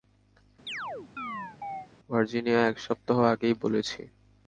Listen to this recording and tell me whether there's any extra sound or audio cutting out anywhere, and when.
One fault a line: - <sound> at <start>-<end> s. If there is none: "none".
- chirp at 0.7-1.9 s